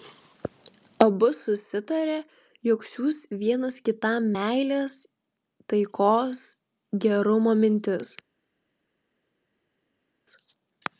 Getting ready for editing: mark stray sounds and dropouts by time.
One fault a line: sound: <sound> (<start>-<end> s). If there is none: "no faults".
no faults